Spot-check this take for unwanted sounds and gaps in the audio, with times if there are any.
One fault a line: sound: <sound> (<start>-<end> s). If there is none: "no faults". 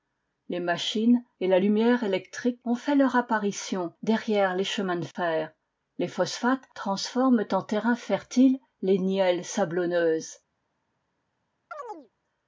sound: chirp (11.7-12.1 s)